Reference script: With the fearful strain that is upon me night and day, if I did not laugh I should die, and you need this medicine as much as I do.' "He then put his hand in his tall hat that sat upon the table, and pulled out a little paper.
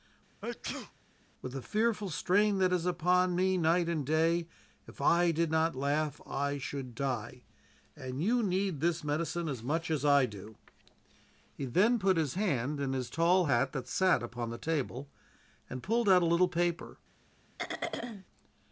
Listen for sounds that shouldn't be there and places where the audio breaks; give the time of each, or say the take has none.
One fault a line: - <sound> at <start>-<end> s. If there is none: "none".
- sneeze at 0.4-0.9 s
- throat clearing at 17.6-18.2 s